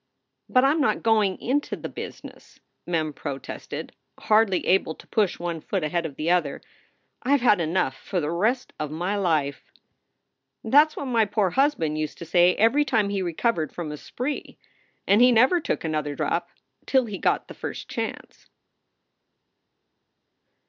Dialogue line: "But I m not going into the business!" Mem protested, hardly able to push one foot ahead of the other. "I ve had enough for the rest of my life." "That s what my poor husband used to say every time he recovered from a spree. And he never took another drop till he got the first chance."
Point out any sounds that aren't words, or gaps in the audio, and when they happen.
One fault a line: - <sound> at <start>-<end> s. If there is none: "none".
none